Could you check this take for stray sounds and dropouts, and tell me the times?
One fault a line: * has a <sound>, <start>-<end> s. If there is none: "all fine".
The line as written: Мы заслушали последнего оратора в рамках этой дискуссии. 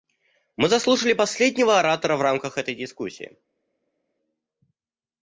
all fine